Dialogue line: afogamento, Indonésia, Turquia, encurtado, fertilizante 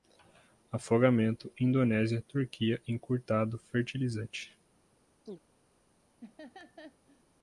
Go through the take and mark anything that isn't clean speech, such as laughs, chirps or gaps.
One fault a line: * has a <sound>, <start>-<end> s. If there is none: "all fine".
* has a chirp, 5.2-5.4 s
* has a laugh, 6.2-7.2 s